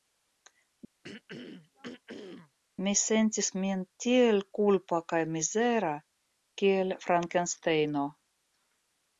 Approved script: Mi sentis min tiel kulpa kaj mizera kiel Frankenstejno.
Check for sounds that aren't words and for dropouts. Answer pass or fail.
fail